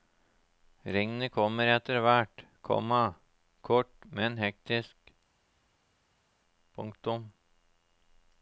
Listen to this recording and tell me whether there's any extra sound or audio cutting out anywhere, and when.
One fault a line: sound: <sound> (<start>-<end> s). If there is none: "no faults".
no faults